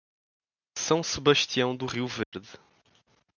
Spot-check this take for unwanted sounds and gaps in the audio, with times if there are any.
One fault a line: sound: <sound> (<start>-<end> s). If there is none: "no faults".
sound: dropout (2.2-2.3 s)